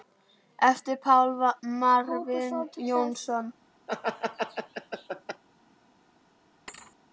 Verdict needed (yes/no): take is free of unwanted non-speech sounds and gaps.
no